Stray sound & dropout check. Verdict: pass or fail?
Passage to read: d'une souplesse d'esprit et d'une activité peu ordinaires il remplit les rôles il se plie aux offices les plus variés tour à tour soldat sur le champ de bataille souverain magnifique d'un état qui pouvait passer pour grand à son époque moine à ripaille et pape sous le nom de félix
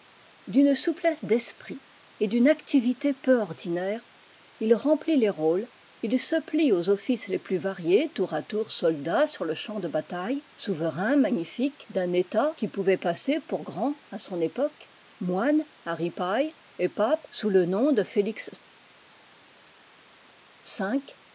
pass